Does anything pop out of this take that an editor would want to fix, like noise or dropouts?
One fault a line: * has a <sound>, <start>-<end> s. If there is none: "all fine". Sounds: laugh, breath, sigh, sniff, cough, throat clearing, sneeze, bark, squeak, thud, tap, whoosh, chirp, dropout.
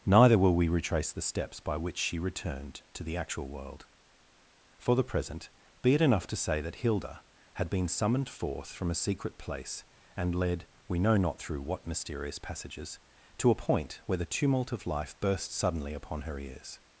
all fine